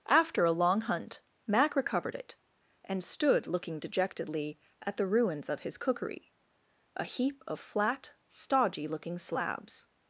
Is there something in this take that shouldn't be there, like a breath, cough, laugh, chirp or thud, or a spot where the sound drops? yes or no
no